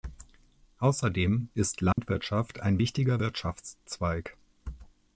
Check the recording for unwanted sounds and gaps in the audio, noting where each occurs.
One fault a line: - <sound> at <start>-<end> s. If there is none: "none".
- dropout at 1.9-2.0 s